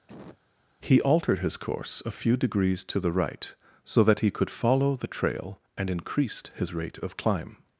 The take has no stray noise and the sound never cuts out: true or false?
false